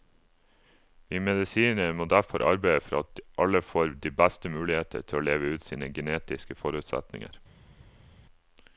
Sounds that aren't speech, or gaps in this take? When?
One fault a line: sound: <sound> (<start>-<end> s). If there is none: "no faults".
no faults